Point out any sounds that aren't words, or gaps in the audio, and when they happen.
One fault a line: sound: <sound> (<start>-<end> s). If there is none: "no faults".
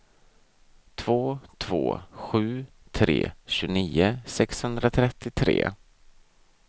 no faults